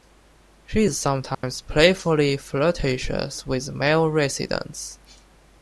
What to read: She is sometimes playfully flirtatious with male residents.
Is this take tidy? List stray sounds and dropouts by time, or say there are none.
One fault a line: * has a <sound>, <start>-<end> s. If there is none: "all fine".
* has a dropout, 1.3-1.4 s